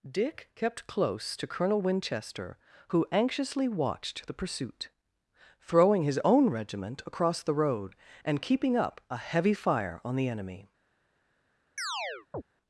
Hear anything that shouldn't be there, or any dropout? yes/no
yes